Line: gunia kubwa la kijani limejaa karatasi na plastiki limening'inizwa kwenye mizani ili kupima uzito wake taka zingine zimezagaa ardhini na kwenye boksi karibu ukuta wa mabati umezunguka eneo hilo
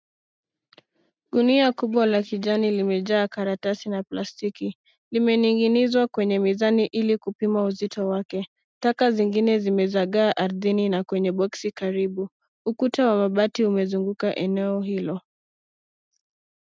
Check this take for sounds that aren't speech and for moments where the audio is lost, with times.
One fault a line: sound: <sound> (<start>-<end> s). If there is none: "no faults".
no faults